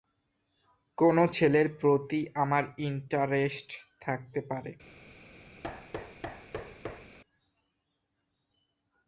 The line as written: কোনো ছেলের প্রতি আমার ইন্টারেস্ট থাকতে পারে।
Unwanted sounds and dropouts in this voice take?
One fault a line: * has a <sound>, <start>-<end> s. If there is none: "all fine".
* has a thud, 5.6-7.2 s